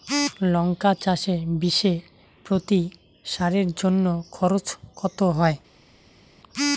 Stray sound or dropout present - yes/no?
no